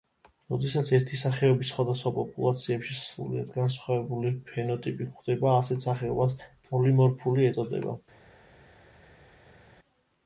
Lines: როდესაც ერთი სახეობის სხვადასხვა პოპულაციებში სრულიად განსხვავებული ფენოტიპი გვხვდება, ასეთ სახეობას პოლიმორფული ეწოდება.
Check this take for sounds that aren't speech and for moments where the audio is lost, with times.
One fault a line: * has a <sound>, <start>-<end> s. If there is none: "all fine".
all fine